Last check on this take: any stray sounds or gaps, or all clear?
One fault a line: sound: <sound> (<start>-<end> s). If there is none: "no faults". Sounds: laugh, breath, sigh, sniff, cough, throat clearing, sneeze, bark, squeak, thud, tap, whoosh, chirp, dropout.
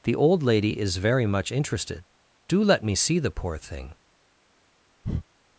sound: breath (5.0-5.2 s)